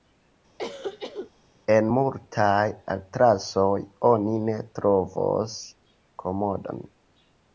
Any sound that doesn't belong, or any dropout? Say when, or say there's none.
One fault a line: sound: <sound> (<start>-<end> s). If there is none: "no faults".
sound: cough (0.6-1.3 s)